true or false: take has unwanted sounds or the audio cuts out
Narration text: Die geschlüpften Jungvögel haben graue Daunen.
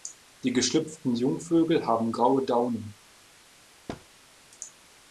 true